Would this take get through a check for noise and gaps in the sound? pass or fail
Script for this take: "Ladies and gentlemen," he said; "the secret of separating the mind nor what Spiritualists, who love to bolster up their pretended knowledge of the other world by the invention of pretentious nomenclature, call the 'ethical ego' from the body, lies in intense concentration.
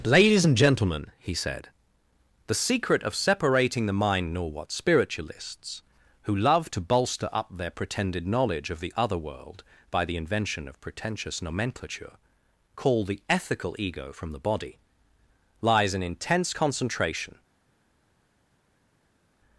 pass